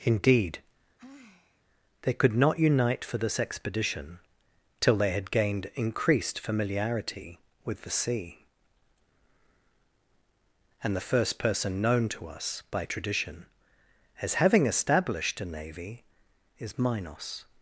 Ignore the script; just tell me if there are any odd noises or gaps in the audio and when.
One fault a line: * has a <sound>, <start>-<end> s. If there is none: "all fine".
* has a sigh, 1.0-1.6 s